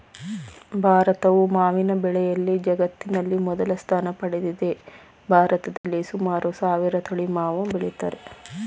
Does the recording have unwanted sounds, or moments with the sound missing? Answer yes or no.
yes